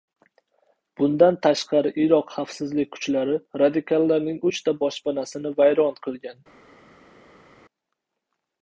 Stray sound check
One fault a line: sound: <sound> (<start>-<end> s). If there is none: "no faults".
no faults